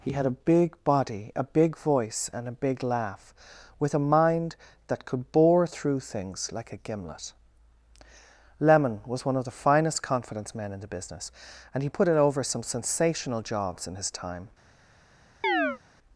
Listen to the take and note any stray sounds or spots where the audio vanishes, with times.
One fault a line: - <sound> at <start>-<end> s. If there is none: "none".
- chirp at 15.4-15.8 s